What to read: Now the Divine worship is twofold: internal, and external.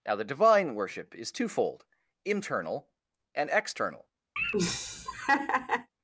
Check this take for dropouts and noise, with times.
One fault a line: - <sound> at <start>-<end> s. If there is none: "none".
- laugh at 4.4-5.9 s